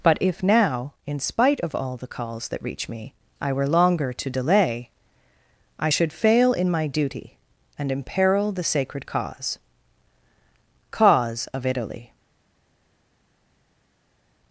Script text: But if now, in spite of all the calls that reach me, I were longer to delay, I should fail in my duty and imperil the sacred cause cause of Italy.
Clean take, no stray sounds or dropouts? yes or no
yes